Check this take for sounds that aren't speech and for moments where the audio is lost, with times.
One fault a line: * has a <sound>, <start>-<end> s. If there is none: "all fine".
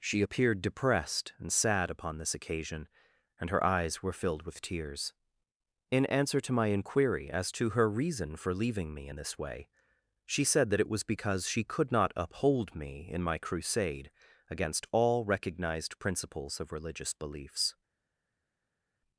all fine